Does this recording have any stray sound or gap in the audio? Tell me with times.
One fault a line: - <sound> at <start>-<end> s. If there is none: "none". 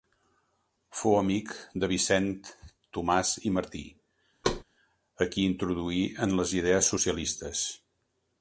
- thud at 4.4-4.6 s